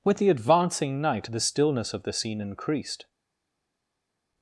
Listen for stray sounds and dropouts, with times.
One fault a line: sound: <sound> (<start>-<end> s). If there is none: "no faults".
no faults